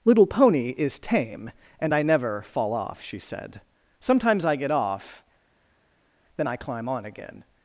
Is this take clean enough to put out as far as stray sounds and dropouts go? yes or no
yes